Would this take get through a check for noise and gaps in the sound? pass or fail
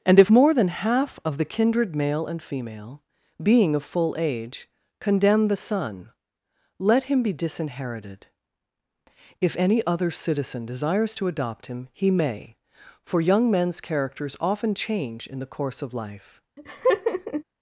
fail